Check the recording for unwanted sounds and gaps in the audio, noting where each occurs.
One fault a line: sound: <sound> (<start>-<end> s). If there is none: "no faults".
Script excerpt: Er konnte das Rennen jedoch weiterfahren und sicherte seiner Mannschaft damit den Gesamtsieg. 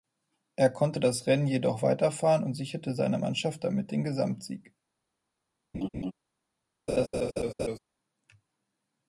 sound: laugh (5.7-6.1 s)
sound: laugh (6.9-7.8 s)